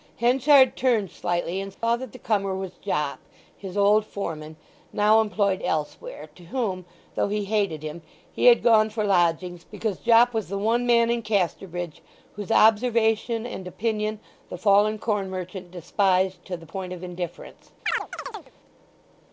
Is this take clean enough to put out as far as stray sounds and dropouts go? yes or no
no